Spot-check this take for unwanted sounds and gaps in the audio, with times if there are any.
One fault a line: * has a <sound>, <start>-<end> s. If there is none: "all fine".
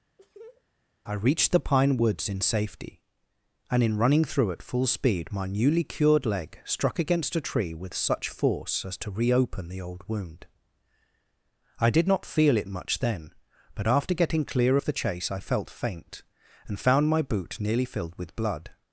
* has a laugh, 0.2-0.6 s